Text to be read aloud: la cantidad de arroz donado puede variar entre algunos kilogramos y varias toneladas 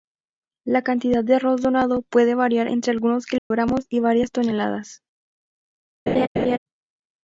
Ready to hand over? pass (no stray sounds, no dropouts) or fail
fail